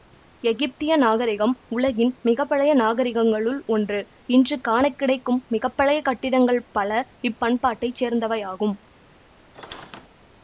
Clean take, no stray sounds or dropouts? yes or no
no